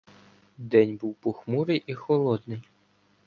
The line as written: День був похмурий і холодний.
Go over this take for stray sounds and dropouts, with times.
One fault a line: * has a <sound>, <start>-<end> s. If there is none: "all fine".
all fine